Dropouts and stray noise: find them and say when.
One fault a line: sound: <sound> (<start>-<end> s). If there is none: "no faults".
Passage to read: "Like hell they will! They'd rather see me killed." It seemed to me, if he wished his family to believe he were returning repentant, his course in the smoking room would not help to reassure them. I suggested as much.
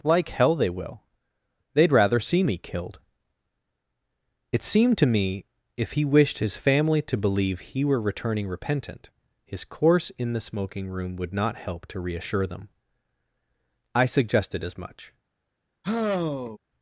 sound: sigh (15.8-16.6 s)